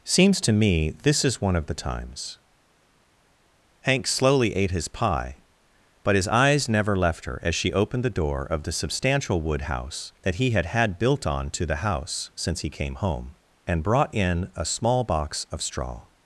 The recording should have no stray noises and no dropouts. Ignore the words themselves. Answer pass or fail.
pass